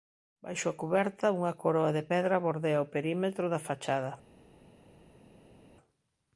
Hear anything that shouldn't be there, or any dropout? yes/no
no